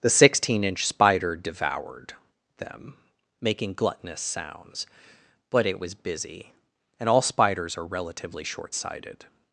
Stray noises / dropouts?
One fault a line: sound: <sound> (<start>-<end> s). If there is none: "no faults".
no faults